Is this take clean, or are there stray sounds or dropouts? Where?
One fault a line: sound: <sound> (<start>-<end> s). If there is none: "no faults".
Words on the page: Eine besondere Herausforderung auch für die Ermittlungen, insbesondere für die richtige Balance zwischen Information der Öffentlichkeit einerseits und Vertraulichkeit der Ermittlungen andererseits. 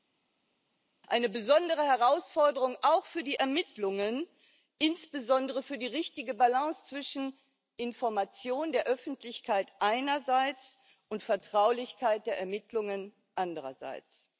no faults